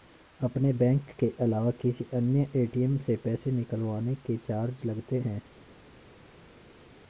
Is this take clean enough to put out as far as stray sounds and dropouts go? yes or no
yes